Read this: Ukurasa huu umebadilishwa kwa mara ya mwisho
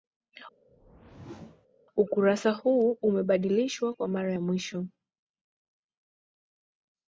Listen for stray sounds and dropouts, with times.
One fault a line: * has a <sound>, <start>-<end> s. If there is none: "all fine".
* has a whoosh, 0.7-1.7 s